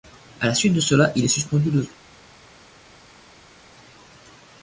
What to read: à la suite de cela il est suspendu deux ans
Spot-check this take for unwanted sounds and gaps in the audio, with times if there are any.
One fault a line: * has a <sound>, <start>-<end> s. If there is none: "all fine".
all fine